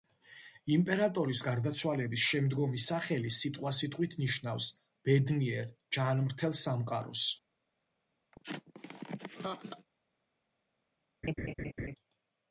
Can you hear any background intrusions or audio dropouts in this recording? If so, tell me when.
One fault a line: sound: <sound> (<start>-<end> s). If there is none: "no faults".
sound: laugh (8.3-9.9 s)
sound: laugh (11.2-12.0 s)